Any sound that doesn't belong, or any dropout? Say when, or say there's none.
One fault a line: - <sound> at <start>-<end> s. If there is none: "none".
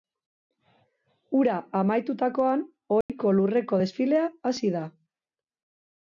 - dropout at 3.0-3.1 s